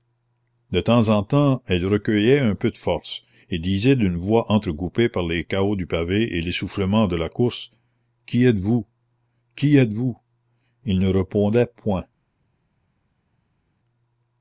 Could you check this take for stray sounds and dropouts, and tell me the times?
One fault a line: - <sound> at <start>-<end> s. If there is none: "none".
none